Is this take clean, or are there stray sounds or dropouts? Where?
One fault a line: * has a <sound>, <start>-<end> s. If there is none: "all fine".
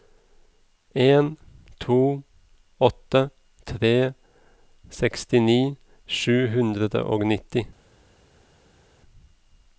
all fine